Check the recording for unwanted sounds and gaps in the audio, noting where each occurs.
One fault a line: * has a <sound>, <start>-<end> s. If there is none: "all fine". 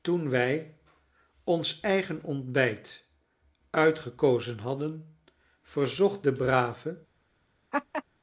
* has a laugh, 7.7-8.0 s